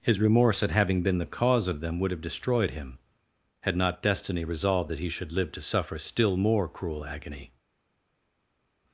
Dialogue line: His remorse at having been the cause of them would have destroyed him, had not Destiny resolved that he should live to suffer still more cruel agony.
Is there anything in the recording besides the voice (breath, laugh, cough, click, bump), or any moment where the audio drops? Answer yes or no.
no